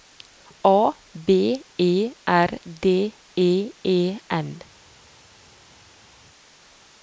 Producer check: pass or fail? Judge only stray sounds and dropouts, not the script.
pass